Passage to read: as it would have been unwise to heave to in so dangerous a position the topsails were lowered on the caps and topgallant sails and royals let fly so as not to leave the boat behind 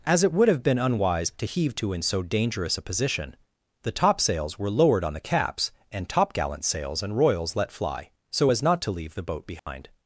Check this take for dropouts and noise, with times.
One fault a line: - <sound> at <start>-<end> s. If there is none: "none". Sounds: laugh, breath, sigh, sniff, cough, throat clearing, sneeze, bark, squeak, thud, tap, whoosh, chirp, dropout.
- dropout at 9.6-9.7 s